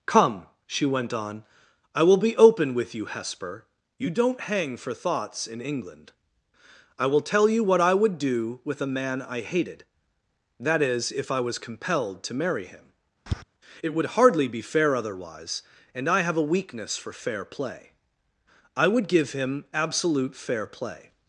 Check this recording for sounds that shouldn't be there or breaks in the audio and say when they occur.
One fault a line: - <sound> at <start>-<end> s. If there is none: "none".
- tap at 13.3-13.4 s